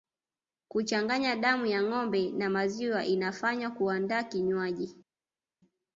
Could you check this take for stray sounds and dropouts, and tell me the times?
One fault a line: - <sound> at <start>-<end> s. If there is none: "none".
none